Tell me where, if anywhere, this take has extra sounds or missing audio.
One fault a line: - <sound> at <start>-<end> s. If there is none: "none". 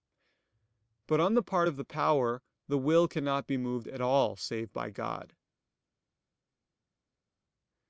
none